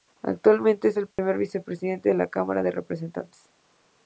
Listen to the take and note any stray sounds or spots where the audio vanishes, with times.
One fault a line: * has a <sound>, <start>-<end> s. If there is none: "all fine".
* has a dropout, 1.1-1.2 s